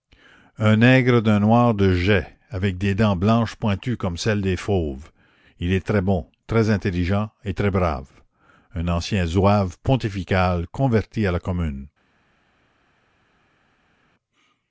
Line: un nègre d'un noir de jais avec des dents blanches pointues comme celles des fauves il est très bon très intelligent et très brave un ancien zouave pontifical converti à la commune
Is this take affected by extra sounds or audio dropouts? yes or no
no